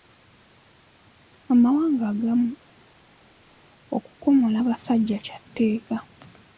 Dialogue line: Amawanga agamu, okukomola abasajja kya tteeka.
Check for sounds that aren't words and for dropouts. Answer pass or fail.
pass